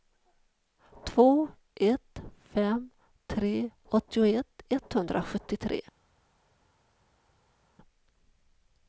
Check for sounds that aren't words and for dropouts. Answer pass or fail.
pass